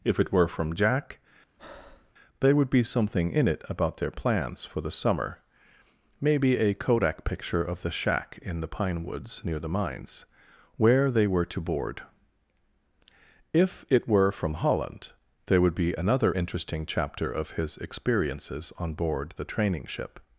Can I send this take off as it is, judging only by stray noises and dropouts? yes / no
no